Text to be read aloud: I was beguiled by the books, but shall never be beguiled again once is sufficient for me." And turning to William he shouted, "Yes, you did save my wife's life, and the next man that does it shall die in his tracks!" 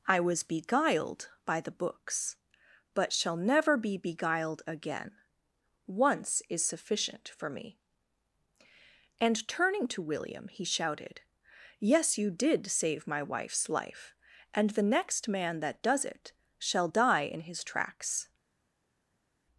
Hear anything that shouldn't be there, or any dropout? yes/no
no